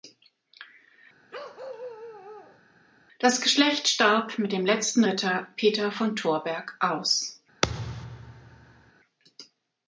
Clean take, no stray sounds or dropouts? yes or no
no